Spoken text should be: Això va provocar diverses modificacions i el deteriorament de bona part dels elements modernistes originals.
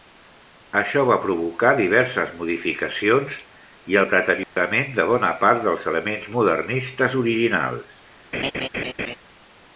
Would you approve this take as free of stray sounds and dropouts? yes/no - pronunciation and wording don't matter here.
no